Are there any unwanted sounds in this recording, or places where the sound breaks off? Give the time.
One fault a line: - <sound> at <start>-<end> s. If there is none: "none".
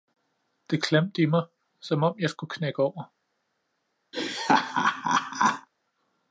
- laugh at 4.1-5.7 s